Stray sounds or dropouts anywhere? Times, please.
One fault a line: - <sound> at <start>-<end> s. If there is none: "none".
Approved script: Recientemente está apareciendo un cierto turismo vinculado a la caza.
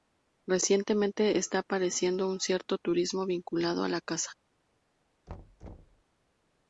- thud at 5.3-6.0 s